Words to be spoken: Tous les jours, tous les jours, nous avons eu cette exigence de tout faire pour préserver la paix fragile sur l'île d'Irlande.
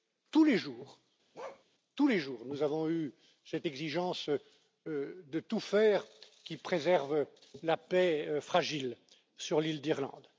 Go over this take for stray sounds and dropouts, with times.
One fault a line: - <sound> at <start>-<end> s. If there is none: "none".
- bark at 1.3-1.6 s